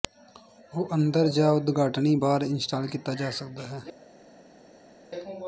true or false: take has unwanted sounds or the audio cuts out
false